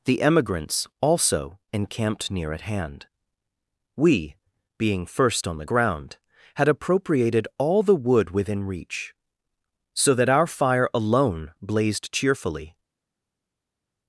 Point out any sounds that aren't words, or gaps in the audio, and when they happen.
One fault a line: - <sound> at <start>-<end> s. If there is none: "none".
none